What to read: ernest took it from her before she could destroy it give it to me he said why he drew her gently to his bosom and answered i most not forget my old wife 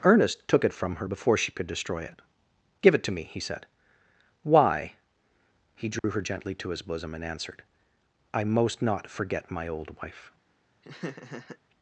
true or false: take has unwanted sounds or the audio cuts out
true